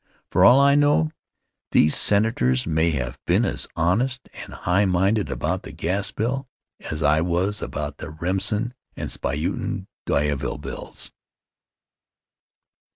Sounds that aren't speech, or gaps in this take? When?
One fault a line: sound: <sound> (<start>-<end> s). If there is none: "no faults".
no faults